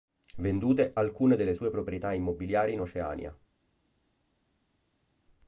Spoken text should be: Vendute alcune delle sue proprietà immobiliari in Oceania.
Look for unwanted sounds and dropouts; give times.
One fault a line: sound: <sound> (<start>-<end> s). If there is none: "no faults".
no faults